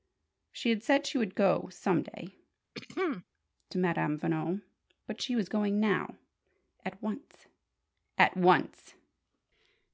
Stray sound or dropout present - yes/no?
yes